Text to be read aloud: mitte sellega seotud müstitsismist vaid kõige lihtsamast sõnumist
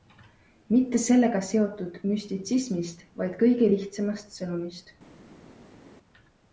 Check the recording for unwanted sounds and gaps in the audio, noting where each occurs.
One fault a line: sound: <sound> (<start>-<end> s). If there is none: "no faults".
no faults